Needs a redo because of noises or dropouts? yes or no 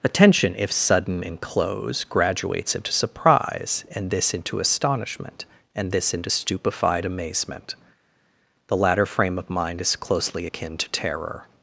no